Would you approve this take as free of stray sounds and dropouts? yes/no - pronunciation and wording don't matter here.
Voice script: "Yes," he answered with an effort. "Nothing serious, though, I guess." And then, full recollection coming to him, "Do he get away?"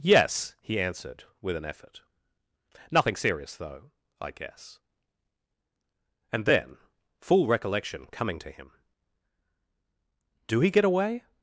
yes